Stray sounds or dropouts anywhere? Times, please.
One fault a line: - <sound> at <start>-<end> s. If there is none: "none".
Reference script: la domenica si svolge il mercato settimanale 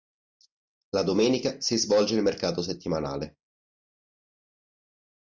none